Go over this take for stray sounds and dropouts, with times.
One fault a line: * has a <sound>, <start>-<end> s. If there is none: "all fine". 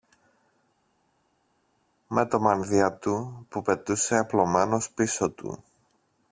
all fine